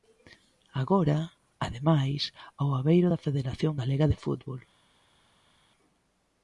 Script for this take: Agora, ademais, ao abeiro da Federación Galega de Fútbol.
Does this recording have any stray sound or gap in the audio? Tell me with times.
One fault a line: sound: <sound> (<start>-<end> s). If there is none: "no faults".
no faults